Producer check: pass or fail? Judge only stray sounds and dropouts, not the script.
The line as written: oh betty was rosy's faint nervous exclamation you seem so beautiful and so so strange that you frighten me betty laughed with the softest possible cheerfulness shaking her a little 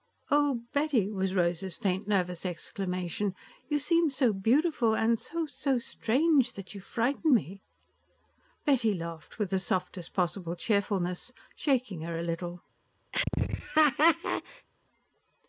fail